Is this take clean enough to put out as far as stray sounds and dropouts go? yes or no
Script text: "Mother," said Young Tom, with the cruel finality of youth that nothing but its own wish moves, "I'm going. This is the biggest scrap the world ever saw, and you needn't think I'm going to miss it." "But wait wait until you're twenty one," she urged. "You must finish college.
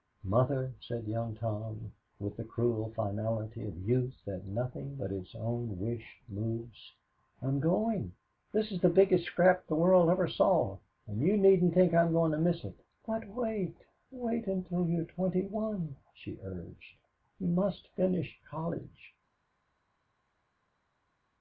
yes